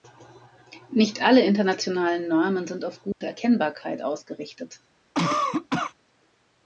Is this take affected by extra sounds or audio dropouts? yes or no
yes